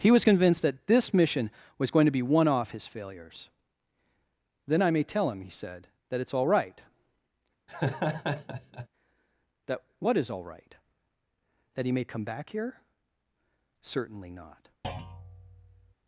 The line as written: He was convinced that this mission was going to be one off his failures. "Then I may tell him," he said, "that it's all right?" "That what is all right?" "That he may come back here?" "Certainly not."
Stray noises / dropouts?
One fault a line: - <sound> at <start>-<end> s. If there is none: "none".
- laugh at 7.7-8.9 s
- thud at 14.8-15.9 s